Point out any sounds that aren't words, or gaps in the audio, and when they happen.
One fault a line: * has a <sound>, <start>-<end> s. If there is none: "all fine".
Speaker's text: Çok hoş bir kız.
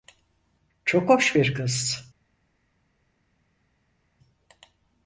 all fine